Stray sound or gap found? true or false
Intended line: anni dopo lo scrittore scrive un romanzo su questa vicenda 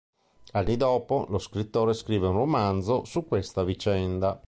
false